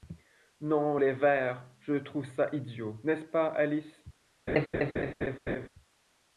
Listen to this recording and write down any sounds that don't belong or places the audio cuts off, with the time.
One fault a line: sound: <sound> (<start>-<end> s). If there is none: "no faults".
sound: laugh (4.5-5.7 s)